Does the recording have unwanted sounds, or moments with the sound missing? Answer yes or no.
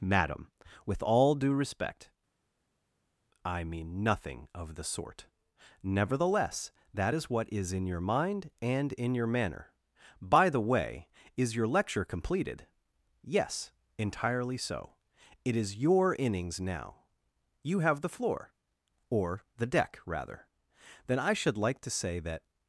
no